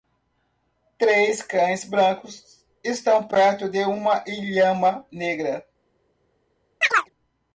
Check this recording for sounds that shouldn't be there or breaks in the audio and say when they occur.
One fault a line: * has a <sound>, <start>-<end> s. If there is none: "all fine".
* has a chirp, 6.8-7.1 s